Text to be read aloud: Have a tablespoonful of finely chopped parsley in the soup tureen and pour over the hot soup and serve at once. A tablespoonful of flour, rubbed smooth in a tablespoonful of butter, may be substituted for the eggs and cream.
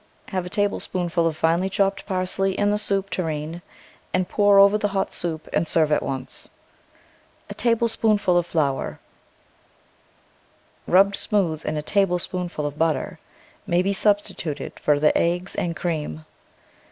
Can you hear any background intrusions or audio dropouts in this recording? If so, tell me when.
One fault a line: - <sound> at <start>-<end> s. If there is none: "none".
none